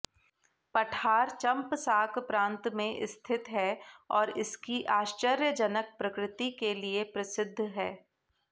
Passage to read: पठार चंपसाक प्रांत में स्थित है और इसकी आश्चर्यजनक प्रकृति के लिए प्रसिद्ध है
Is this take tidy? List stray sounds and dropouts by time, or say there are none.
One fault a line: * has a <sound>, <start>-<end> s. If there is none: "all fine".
all fine